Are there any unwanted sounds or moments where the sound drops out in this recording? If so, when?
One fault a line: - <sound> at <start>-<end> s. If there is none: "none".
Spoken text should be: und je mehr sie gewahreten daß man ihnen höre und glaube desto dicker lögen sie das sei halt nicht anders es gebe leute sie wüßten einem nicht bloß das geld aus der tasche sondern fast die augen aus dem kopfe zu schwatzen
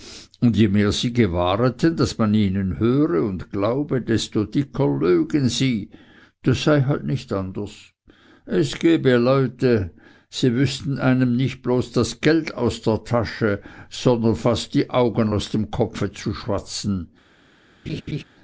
- laugh at 17.9-18.2 s